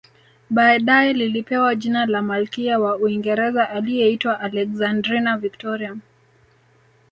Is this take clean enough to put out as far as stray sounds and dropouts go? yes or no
yes